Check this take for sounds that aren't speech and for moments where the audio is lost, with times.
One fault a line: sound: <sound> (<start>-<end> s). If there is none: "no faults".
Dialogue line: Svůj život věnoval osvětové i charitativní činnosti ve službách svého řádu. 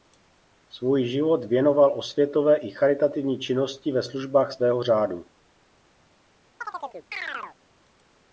sound: chirp (6.6-7.6 s)